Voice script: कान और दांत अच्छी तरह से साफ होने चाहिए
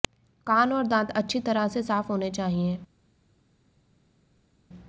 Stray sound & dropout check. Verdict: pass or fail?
pass